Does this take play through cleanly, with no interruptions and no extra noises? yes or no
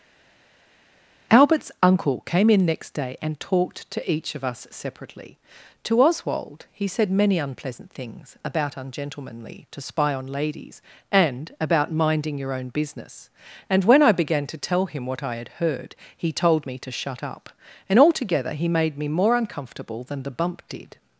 yes